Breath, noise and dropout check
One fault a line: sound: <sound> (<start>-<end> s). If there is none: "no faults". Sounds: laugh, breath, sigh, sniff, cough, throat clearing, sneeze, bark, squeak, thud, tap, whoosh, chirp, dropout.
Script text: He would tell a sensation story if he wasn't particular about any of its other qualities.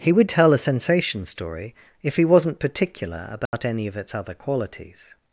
sound: dropout (3.5-3.5 s)